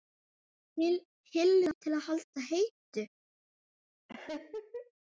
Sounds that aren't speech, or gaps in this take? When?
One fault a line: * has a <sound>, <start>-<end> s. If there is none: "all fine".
* has a laugh, 4.1-4.9 s